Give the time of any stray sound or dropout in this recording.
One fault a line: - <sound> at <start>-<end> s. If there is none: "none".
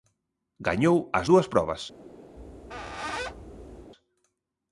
- squeak at 2.4-3.9 s